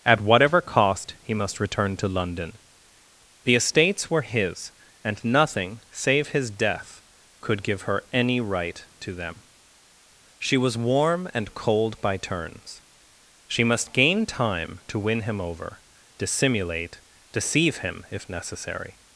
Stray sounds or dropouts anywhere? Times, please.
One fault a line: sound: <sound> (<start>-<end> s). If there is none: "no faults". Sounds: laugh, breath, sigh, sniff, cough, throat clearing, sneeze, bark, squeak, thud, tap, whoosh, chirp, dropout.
no faults